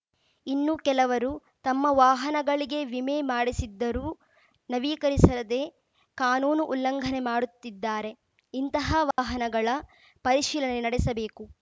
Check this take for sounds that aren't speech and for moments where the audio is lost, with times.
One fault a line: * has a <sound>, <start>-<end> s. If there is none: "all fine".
* has a dropout, 9.1-9.2 s